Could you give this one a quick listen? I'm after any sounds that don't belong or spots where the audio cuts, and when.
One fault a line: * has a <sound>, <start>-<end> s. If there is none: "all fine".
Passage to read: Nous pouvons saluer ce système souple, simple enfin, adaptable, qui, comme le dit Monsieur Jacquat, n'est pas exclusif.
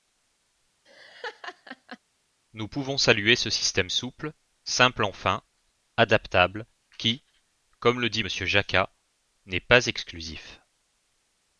* has a laugh, 0.9-2.0 s